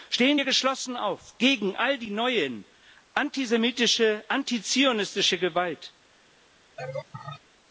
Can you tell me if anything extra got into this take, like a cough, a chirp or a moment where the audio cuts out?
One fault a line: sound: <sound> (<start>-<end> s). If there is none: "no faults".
sound: laugh (6.8-7.4 s)